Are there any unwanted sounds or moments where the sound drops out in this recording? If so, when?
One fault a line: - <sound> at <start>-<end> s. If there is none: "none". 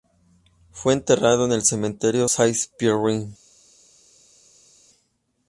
none